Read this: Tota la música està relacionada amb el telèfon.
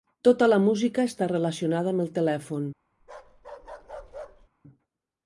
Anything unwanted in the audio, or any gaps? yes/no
yes